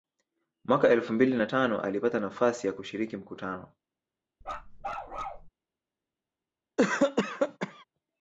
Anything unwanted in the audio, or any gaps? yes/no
yes